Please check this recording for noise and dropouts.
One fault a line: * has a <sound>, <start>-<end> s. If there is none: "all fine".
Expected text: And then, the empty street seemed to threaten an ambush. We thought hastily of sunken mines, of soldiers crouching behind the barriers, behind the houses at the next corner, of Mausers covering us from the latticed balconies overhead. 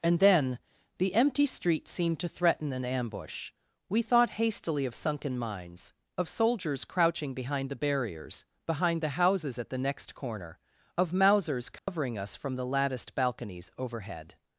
* has a dropout, 11.8-11.9 s